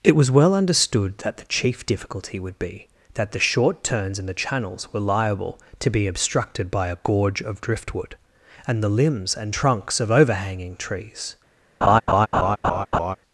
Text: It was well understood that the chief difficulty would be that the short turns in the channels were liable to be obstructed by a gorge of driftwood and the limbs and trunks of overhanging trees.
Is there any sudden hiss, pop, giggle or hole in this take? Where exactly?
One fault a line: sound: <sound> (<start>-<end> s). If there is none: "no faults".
sound: laugh (11.8-13.2 s)